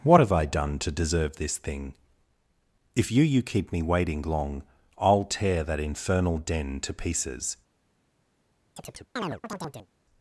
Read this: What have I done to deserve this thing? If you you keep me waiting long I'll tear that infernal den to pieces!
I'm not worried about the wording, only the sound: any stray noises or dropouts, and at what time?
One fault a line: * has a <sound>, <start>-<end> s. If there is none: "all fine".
* has a chirp, 8.8-9.9 s